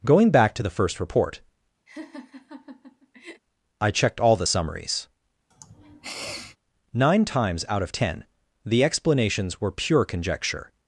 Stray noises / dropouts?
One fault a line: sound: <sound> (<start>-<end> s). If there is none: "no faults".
sound: laugh (1.9-3.4 s)
sound: sniff (5.5-6.6 s)